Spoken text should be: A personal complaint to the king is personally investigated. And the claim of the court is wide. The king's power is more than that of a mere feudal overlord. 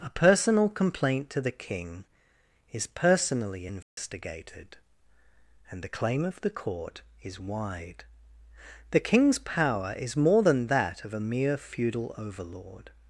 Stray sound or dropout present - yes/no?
yes